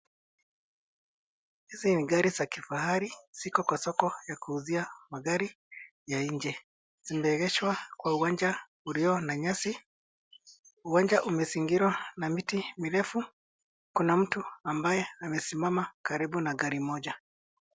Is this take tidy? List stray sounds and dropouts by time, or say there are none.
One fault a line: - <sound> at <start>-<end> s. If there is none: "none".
none